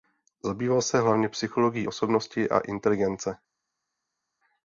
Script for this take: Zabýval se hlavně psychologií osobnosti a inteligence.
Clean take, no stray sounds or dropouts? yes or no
yes